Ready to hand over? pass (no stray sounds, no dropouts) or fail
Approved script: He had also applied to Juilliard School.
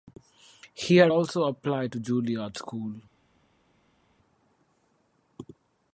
pass